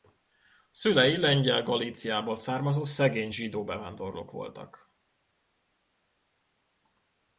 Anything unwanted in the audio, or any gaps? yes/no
no